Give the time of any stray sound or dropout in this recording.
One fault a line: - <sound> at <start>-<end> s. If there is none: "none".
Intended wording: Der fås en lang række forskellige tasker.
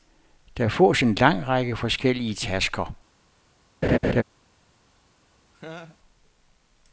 - laugh at 3.8-4.2 s
- laugh at 5.5-6.0 s